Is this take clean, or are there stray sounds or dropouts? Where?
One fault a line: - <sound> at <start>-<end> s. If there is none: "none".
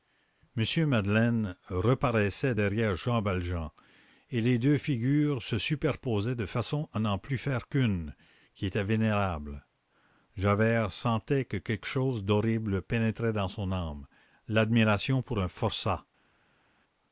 none